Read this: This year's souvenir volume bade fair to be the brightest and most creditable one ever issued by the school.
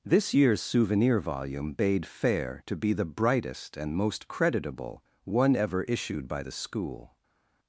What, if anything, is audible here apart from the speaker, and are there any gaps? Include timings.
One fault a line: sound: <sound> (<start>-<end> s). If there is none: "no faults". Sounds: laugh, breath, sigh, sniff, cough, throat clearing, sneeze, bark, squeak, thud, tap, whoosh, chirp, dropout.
no faults